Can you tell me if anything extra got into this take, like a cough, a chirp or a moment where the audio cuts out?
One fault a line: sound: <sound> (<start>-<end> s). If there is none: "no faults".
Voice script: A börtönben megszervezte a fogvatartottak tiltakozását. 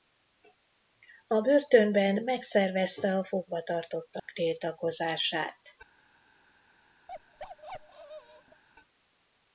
sound: dropout (4.2-4.3 s)
sound: bark (7.1-8.6 s)